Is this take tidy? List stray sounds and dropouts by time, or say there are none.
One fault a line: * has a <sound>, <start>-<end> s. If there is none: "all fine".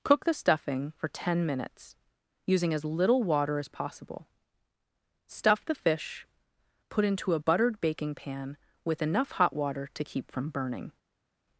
all fine